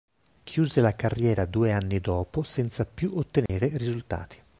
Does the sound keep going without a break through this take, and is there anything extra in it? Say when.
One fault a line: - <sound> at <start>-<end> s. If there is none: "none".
- dropout at 3.5-3.5 s